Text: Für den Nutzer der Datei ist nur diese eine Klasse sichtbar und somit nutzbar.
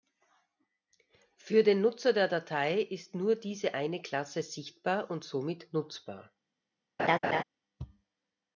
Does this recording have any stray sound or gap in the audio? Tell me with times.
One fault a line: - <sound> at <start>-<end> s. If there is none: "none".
- laugh at 7.0-7.4 s